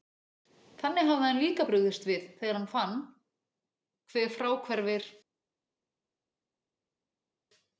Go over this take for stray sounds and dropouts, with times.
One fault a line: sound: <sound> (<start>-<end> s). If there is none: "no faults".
no faults